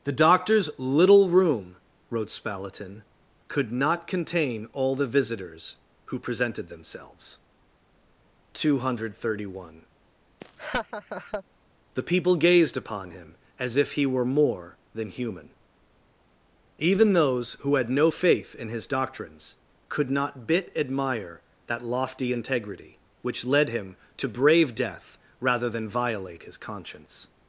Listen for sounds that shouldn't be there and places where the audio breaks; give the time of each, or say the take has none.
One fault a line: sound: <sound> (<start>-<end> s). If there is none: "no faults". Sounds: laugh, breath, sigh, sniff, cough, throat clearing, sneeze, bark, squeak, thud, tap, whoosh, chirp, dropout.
sound: laugh (10.4-11.4 s)